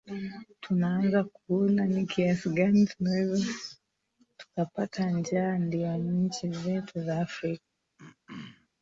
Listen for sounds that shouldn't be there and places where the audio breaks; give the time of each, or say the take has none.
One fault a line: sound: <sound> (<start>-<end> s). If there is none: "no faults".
sound: throat clearing (8.0-8.7 s)